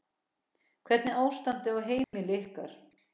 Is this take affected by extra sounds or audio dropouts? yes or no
yes